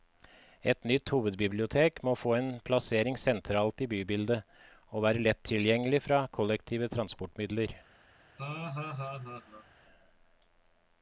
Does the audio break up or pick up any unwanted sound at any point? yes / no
yes